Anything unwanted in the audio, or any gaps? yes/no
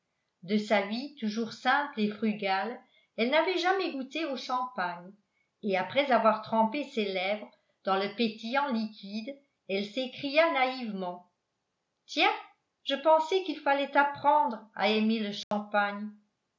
yes